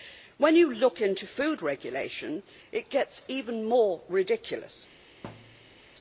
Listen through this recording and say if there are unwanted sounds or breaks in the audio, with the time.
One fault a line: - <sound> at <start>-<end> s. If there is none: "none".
- thud at 5.2-5.8 s